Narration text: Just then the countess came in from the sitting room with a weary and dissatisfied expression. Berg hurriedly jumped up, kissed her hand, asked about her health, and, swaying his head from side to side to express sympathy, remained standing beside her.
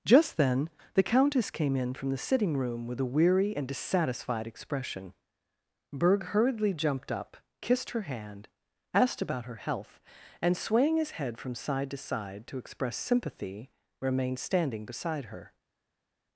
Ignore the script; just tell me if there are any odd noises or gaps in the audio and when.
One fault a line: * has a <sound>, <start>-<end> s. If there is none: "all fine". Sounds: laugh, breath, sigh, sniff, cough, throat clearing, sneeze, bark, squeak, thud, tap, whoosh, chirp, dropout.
all fine